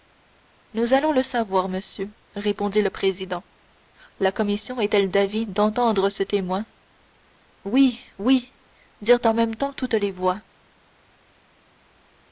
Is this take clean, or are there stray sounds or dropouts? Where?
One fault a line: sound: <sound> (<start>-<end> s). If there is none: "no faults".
no faults